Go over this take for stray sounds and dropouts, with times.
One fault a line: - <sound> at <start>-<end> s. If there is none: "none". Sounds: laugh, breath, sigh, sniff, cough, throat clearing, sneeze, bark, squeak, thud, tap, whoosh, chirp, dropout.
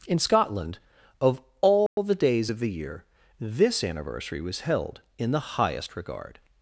- dropout at 1.9-2.0 s